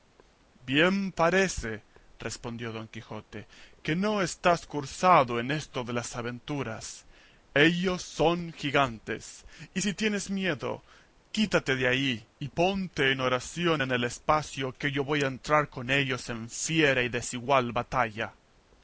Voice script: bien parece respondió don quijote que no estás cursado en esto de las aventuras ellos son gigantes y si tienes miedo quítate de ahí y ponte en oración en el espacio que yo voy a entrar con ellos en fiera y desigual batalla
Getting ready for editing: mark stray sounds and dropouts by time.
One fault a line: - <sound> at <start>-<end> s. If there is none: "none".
none